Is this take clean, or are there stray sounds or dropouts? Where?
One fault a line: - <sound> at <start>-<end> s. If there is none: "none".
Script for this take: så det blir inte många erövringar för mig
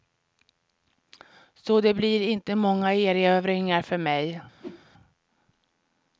- whoosh at 4.6-4.9 s